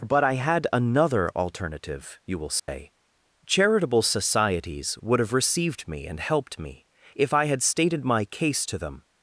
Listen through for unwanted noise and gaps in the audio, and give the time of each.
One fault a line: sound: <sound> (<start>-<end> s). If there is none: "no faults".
sound: dropout (2.6-2.7 s)